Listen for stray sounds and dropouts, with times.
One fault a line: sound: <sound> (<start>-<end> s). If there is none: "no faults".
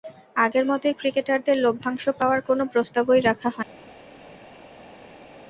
no faults